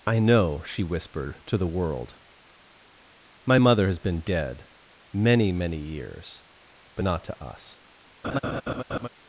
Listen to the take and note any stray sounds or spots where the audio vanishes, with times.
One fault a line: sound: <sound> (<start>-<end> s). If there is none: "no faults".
sound: laugh (8.2-9.1 s)